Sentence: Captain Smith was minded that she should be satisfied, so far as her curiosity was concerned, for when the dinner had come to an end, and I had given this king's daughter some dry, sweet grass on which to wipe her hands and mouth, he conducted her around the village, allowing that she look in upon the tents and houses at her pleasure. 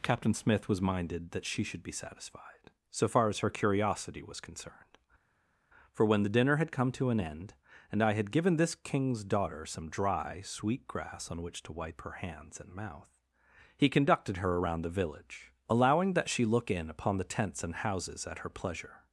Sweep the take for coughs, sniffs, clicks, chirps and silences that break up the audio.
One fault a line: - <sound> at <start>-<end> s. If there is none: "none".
none